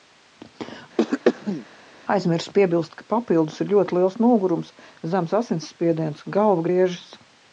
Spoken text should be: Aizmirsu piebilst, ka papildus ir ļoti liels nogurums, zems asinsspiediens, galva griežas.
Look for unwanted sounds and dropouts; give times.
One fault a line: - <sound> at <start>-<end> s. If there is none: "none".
- throat clearing at 1.0-1.7 s